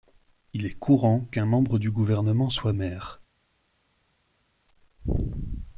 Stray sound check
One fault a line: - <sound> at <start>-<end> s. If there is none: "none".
none